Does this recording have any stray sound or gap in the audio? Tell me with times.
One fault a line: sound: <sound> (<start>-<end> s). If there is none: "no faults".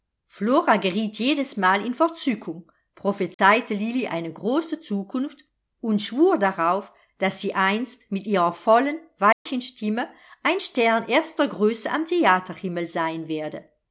sound: dropout (3.3-3.4 s)
sound: dropout (9.3-9.5 s)